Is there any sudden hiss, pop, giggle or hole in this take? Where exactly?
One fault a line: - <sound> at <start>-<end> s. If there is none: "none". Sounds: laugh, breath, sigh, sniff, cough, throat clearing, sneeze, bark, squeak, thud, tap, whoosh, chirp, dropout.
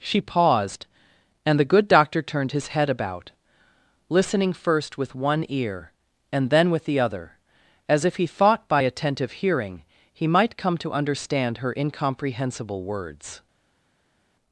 none